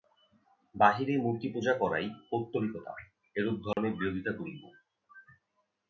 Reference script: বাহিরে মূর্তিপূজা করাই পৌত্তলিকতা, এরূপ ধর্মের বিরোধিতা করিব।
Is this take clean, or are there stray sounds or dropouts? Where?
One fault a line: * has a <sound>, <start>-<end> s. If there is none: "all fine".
* has a dropout, 3.7-3.8 s